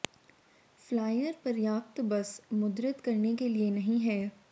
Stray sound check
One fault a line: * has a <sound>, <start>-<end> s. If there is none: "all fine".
all fine